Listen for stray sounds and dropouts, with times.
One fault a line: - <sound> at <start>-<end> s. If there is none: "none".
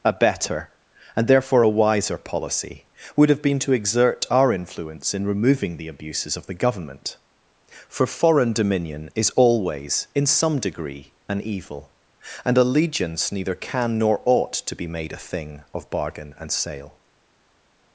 none